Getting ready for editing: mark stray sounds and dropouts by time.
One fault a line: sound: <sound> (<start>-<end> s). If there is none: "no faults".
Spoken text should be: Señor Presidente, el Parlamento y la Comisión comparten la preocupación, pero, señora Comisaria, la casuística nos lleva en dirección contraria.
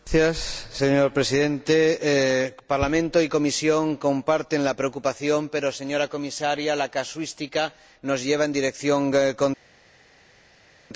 no faults